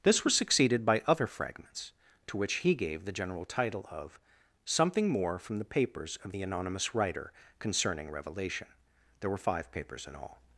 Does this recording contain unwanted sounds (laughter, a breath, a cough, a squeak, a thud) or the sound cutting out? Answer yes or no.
no